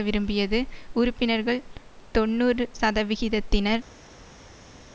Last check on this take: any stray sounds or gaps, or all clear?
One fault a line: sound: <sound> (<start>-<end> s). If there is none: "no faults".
no faults